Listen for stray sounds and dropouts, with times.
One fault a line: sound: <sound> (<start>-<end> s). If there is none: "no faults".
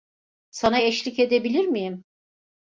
no faults